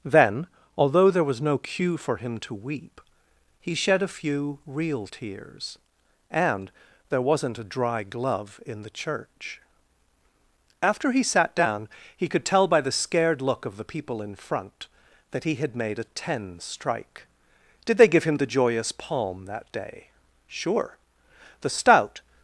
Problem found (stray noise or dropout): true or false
false